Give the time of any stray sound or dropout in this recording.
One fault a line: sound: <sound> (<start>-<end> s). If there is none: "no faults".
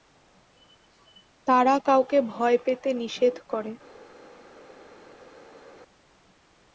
no faults